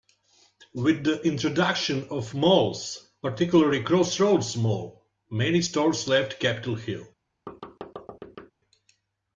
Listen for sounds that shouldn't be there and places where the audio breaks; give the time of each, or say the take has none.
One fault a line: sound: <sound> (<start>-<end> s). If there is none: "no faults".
sound: thud (7.5-8.5 s)